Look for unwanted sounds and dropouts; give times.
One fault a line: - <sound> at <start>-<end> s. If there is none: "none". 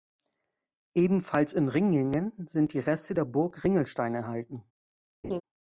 - laugh at 5.2-5.4 s